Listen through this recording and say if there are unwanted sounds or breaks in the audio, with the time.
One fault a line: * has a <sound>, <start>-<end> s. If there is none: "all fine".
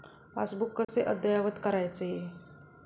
* has a dropout, 0.8-0.9 s